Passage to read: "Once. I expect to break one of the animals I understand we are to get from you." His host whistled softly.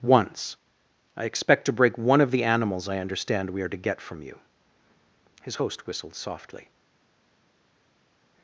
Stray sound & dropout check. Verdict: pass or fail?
pass